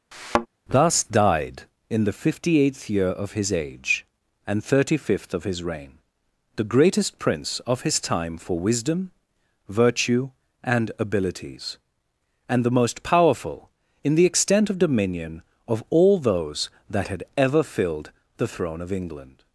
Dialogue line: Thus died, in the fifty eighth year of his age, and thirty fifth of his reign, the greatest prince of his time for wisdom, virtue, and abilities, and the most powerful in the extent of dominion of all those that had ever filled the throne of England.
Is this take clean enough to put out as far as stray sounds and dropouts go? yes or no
no